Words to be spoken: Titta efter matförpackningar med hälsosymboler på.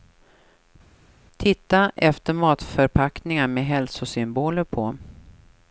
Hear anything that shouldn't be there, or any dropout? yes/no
no